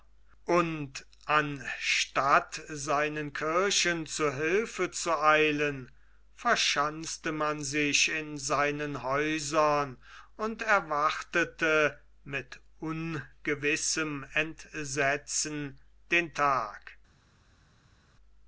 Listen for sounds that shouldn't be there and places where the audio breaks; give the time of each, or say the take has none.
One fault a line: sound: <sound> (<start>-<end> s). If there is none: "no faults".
no faults